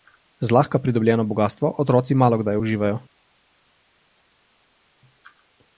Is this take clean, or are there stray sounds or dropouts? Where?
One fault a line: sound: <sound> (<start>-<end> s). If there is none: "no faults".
no faults